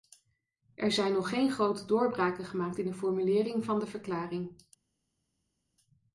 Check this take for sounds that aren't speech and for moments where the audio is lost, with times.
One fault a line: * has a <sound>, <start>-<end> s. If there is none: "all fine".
all fine